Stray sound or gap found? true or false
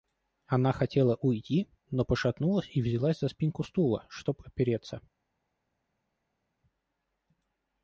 false